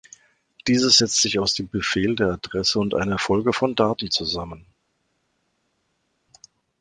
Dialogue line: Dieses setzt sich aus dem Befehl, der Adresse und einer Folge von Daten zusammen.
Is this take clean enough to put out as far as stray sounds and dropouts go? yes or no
yes